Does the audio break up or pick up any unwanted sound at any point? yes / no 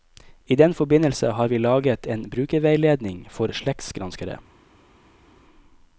no